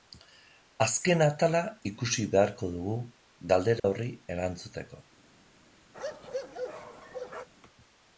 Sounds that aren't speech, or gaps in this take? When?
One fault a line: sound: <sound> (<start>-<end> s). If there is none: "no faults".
sound: dropout (3.8-3.8 s)
sound: bark (5.9-7.5 s)